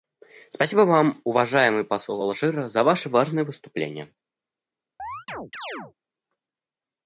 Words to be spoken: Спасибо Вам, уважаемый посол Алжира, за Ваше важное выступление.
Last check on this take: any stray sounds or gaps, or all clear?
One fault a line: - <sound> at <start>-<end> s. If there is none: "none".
- chirp at 5.0-5.9 s